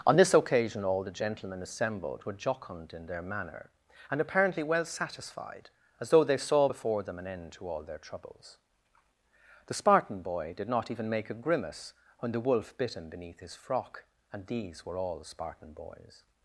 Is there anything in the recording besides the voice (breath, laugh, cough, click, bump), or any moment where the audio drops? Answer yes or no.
no